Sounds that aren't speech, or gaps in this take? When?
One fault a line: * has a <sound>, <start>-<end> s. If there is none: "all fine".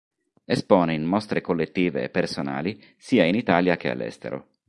all fine